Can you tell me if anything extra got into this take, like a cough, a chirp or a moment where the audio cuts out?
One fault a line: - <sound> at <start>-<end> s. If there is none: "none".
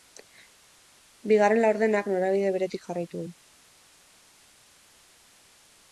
none